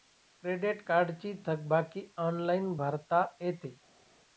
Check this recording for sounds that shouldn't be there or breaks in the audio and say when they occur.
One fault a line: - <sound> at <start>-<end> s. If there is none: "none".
none